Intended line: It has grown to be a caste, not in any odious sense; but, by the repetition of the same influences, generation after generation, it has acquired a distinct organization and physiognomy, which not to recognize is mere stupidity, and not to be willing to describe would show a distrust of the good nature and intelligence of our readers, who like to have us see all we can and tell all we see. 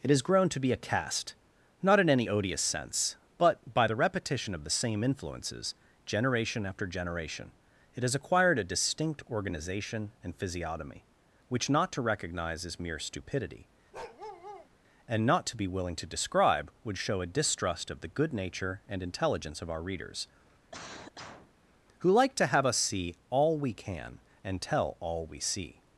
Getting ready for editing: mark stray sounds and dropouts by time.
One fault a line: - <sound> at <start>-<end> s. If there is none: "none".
- bark at 13.9-14.7 s
- cough at 20.7-21.5 s